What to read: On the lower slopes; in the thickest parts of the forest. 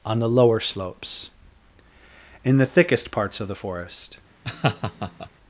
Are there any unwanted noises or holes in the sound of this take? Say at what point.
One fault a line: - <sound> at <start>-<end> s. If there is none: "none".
- laugh at 4.4-5.3 s